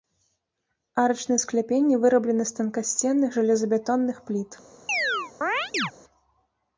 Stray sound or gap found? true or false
true